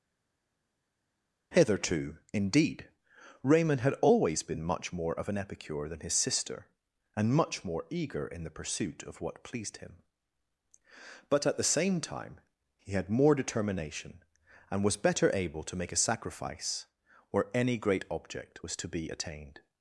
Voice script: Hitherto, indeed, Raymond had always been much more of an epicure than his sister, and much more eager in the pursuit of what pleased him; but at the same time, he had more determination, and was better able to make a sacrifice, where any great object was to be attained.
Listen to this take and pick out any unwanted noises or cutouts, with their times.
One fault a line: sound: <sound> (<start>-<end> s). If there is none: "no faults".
no faults